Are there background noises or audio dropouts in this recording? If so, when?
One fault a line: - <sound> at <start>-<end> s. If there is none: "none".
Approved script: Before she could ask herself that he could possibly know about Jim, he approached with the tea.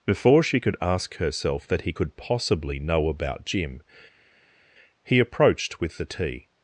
none